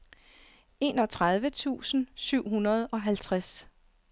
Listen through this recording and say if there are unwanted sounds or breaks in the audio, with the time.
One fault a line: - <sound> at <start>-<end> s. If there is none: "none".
none